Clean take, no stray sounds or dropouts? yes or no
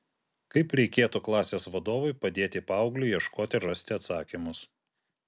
yes